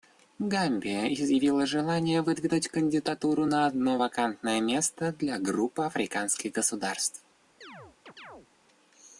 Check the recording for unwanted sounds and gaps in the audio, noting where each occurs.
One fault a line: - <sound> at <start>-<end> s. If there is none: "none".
- chirp at 7.6-8.5 s